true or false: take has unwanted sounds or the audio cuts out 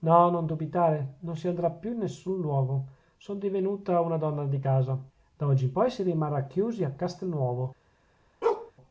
true